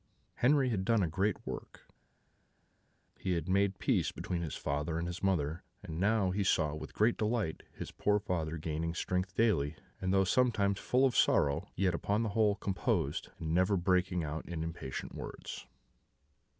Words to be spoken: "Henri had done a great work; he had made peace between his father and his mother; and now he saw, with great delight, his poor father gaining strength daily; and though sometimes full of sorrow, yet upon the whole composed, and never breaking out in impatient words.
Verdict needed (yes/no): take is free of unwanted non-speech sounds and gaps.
yes